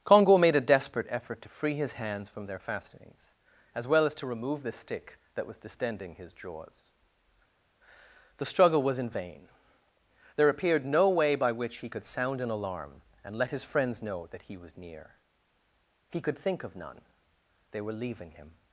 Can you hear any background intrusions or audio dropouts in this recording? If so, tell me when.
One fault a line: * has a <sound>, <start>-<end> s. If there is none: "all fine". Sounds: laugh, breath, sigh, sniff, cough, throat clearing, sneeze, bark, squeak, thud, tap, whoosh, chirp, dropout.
all fine